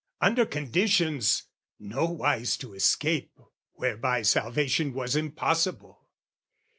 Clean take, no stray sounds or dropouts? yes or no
yes